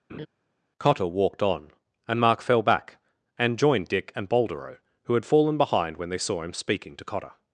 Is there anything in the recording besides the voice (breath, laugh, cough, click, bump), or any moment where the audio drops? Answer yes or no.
yes